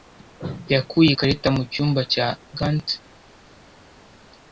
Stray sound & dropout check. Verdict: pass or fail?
pass